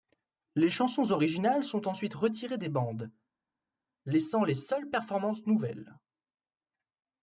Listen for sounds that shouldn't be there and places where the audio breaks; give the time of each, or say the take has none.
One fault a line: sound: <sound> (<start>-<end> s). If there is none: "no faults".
no faults